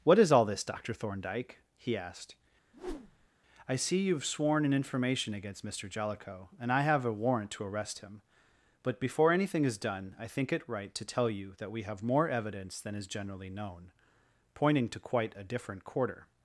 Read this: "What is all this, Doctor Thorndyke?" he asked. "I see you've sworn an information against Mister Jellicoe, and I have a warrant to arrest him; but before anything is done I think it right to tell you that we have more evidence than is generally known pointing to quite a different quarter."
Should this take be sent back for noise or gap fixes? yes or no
yes